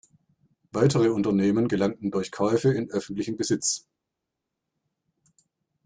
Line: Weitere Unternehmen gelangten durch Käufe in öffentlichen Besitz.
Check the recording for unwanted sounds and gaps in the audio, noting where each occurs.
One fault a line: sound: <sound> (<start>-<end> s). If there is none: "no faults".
no faults